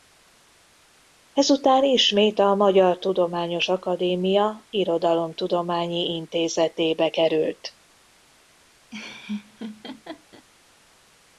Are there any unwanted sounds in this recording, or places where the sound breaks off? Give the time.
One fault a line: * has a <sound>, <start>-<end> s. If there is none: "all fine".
* has a laugh, 8.9-10.5 s